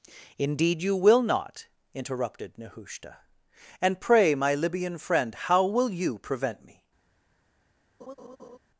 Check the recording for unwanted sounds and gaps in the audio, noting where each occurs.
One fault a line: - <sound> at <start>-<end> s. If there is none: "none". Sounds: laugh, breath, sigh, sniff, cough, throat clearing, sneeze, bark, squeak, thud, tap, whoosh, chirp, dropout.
- laugh at 8.0-8.6 s